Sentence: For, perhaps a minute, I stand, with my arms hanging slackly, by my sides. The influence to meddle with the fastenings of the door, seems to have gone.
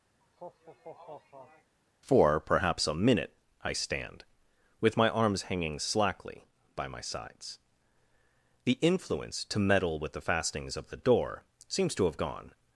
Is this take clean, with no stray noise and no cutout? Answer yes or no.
no